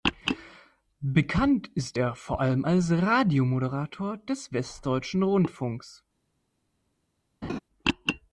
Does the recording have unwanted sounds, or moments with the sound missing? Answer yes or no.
yes